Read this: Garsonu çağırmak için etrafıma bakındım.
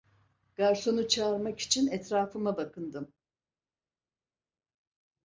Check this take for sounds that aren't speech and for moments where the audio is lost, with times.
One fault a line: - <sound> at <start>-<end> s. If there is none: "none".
none